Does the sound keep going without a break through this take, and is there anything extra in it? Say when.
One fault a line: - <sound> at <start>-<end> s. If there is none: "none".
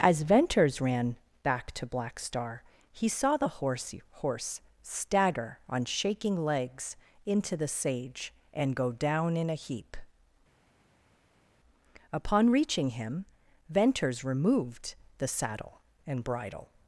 none